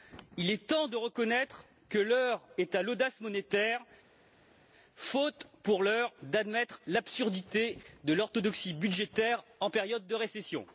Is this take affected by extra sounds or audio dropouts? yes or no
no